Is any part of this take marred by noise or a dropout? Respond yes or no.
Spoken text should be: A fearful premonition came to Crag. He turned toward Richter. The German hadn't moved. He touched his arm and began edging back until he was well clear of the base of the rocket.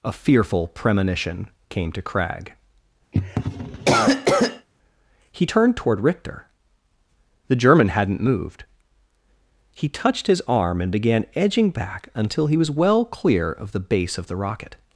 yes